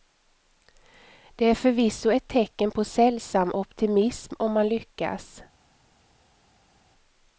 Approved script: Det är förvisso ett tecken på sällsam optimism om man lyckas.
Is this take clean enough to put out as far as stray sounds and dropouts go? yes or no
yes